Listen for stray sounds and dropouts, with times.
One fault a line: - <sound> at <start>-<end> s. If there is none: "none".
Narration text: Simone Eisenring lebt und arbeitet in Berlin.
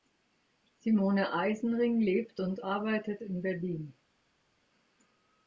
none